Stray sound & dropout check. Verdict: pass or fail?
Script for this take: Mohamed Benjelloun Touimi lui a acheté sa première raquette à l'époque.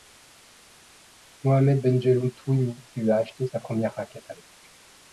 pass